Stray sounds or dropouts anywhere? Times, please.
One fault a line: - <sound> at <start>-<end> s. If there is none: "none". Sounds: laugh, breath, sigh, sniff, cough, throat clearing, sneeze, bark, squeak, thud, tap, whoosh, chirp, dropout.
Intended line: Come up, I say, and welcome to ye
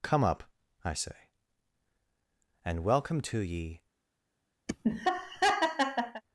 - laugh at 4.7-6.2 s